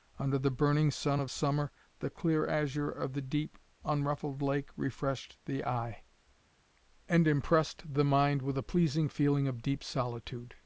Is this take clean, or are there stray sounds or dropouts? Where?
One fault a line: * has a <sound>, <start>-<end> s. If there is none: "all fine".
all fine